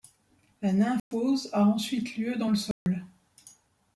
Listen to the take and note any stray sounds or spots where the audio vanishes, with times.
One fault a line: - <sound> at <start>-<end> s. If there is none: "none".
- dropout at 1.0-1.1 s
- dropout at 2.7-2.9 s